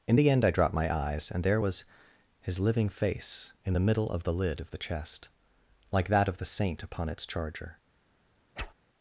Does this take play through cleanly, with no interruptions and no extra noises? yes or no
no